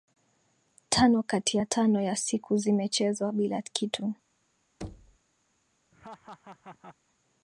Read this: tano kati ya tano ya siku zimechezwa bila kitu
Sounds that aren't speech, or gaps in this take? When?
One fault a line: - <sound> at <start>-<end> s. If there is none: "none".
- thud at 4.8-5.2 s
- laugh at 5.9-7.0 s